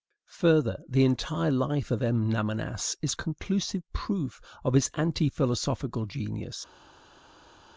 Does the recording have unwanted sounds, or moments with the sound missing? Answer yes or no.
no